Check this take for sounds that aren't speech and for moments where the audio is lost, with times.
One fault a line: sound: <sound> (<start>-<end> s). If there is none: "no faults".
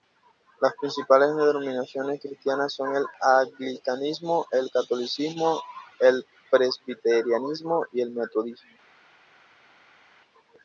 no faults